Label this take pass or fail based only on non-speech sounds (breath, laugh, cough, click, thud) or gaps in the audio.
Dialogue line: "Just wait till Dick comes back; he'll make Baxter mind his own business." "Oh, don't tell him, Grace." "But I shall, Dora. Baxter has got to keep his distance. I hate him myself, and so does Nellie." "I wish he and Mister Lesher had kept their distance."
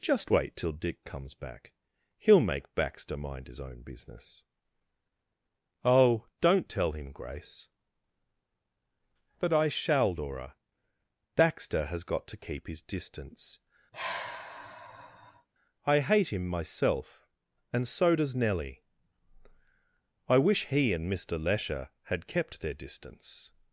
fail